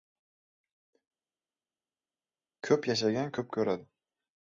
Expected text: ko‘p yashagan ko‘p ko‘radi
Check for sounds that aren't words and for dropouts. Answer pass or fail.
pass